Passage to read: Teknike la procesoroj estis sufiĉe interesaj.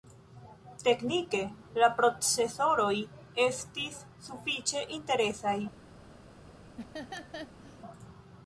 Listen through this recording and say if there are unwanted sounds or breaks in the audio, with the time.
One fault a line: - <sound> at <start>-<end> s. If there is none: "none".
- laugh at 6.8-7.8 s